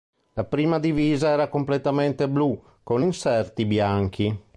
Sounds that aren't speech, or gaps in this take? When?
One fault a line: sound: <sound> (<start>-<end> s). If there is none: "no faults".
no faults